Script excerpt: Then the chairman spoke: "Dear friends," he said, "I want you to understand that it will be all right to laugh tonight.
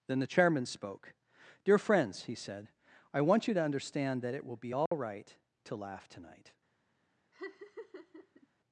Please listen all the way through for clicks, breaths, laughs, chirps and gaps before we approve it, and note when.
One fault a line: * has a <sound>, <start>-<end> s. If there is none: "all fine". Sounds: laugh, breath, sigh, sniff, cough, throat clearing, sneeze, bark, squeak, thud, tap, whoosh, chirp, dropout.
* has a dropout, 4.9-4.9 s
* has a laugh, 7.3-8.5 s